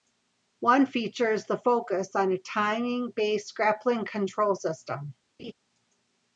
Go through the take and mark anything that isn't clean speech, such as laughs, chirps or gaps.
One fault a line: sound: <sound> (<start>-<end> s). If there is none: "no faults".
sound: laugh (5.4-5.5 s)